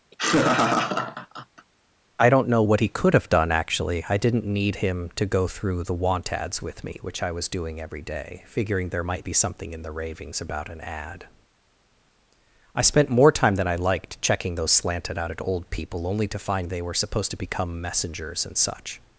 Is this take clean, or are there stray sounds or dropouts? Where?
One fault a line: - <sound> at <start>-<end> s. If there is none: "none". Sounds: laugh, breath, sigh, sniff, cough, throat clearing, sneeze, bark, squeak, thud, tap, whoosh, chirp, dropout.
- laugh at 0.1-1.7 s